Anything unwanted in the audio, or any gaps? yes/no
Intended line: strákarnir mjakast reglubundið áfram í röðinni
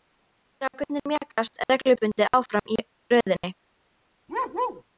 yes